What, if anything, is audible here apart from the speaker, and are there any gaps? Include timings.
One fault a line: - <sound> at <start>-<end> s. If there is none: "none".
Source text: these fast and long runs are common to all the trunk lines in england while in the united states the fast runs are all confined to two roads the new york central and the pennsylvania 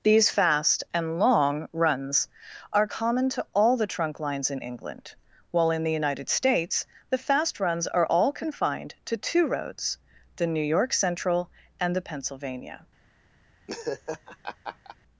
- laugh at 13.7-15.0 s